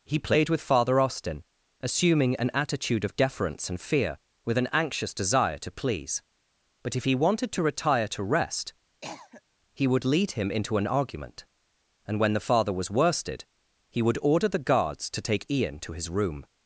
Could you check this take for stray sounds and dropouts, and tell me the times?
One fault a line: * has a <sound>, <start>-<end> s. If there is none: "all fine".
* has a cough, 9.0-9.4 s